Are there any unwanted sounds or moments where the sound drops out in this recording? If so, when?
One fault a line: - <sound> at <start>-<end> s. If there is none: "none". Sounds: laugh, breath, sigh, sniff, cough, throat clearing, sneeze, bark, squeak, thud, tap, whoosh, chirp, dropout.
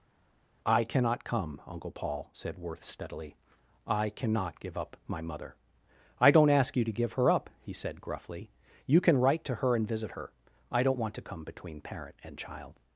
none